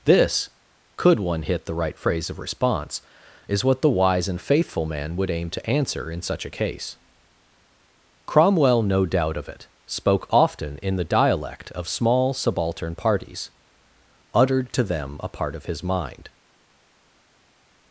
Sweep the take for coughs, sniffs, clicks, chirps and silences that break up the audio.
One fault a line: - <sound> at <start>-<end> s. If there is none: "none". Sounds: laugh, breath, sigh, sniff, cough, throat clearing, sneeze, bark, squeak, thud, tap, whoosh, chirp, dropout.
none